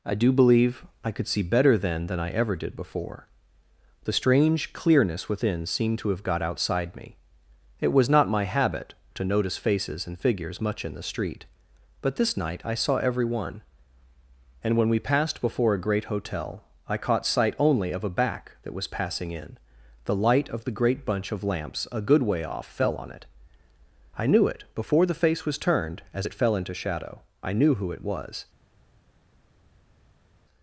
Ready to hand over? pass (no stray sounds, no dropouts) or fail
pass